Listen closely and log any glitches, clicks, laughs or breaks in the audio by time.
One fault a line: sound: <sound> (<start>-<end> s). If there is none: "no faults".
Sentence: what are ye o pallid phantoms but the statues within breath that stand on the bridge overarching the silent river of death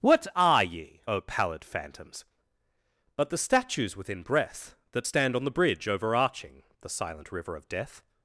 no faults